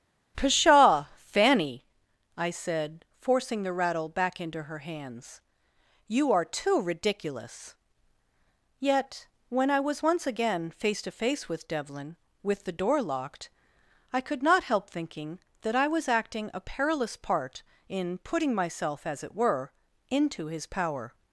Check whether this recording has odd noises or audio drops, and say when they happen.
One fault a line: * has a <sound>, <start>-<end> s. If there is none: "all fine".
all fine